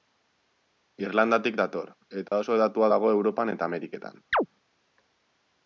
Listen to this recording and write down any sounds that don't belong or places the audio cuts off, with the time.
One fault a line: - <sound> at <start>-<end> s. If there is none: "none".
- dropout at 2.3-2.3 s
- chirp at 4.3-4.5 s